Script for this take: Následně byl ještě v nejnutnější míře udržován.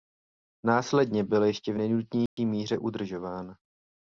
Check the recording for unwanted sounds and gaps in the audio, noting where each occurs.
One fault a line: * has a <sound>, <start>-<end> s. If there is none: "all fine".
* has a dropout, 2.3-2.4 s